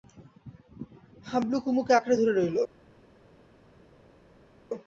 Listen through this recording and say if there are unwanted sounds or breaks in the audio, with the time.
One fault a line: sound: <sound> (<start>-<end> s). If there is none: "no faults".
no faults